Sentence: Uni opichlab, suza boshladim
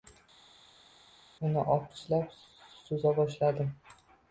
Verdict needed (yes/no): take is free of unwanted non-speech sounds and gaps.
yes